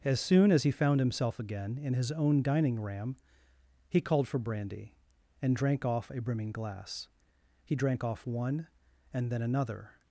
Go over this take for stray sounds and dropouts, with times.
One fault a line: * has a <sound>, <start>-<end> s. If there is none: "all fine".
all fine